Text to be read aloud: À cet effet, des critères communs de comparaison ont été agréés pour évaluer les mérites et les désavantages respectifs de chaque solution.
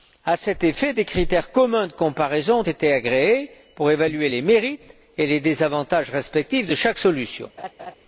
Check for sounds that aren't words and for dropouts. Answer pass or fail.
fail